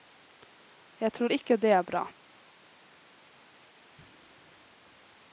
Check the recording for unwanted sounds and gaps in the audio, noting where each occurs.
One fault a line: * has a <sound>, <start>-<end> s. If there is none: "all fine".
all fine